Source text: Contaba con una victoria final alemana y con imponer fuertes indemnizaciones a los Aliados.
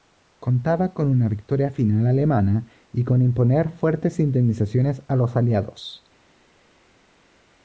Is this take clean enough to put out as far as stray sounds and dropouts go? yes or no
yes